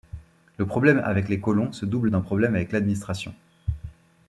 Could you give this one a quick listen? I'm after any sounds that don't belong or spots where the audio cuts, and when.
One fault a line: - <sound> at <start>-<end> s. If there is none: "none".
none